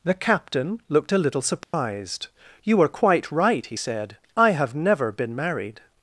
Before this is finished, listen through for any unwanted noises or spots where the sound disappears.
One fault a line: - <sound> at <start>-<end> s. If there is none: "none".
- dropout at 1.6-1.7 s